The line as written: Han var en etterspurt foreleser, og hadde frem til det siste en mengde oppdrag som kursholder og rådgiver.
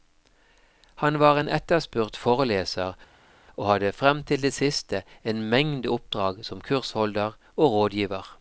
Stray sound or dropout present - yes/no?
no